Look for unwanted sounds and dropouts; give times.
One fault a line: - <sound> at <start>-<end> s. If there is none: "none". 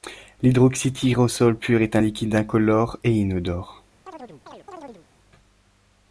- chirp at 4.1-5.1 s